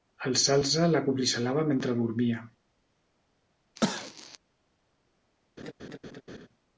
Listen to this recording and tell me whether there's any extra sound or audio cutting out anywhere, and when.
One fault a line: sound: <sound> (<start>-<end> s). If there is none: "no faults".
sound: cough (3.8-4.4 s)
sound: laugh (5.6-6.5 s)